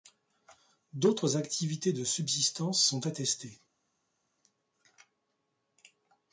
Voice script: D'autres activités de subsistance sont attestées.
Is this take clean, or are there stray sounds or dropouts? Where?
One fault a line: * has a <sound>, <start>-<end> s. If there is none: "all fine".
all fine